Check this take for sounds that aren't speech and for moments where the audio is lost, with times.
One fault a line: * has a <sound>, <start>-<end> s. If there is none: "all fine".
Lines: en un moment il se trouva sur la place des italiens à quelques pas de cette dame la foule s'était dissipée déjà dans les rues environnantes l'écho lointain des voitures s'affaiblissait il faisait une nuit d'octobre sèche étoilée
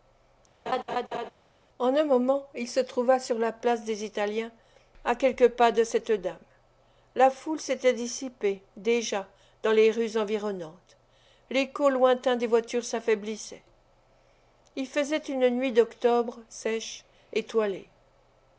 * has a laugh, 0.7-1.3 s